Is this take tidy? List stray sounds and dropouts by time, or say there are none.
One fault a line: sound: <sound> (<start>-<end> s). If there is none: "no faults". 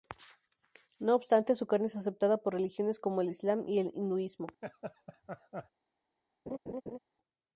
sound: laugh (4.6-5.7 s)
sound: laugh (6.5-7.0 s)